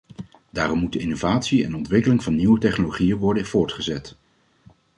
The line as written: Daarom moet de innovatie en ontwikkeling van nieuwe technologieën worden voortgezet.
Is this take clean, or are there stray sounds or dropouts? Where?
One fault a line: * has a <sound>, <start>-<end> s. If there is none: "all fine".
all fine